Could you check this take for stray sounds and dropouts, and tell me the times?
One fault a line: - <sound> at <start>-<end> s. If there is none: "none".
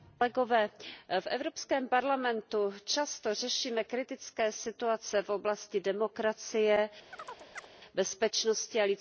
- chirp at 7.1-7.7 s